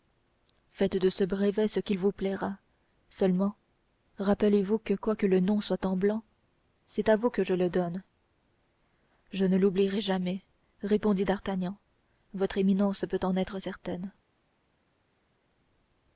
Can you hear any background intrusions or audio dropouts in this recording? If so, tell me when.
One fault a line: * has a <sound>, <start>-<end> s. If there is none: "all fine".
all fine